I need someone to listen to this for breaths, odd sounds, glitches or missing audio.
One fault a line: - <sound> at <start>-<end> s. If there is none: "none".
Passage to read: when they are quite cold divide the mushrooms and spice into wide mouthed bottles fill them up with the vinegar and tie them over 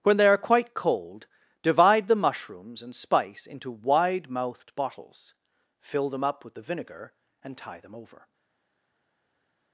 none